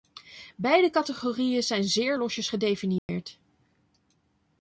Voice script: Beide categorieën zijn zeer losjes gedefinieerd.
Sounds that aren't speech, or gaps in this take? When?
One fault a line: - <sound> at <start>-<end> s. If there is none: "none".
- dropout at 3.0-3.1 s